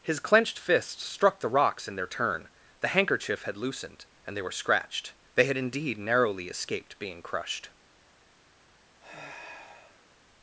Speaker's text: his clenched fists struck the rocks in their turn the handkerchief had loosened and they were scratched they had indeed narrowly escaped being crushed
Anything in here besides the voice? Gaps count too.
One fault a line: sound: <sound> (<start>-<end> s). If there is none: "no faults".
sound: sigh (9.0-10.1 s)